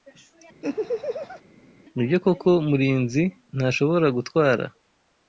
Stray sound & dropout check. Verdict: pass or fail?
fail